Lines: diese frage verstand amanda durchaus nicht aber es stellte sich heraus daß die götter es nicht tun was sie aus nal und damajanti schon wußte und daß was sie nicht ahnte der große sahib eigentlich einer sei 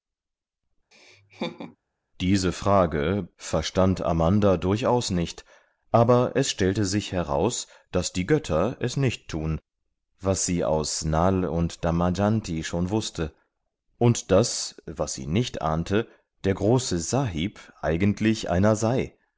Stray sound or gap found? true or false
true